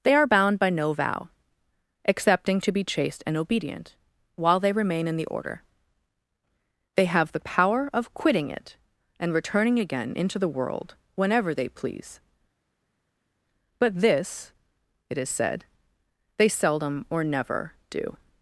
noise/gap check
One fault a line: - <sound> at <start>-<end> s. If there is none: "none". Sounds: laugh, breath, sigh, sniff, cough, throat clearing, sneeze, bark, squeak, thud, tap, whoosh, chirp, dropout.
none